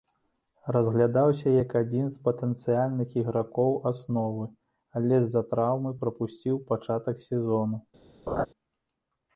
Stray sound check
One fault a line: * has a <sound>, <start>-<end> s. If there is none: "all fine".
* has a laugh, 8.3-8.5 s